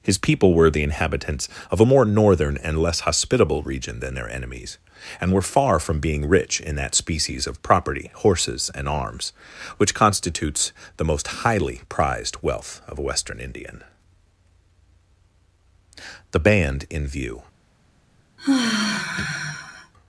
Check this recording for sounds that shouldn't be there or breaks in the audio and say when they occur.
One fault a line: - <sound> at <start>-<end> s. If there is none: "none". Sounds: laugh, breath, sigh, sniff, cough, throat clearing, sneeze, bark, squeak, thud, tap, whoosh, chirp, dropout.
- sigh at 18.4-19.9 s